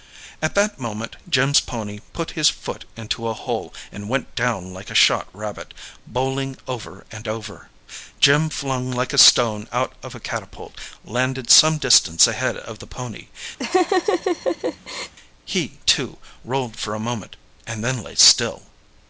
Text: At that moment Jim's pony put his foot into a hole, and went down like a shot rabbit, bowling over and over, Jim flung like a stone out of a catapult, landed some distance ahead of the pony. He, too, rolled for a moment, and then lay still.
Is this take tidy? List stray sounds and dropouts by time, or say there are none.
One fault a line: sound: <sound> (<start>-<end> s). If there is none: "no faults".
sound: laugh (13.6-15.1 s)